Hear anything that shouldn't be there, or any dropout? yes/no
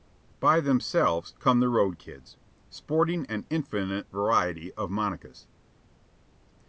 no